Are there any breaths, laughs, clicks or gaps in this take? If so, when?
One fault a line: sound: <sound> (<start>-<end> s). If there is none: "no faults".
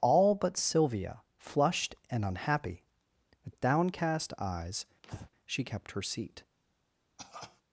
sound: breath (5.0-5.3 s)
sound: cough (7.2-7.6 s)